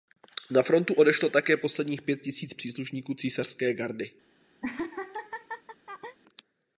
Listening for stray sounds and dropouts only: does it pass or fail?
fail